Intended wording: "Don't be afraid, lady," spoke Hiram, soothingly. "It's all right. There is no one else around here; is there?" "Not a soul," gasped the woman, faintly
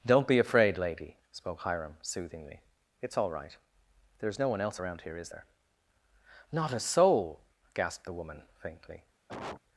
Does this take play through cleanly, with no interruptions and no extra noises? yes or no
no